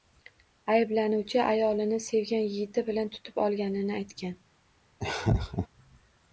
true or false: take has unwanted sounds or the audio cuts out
true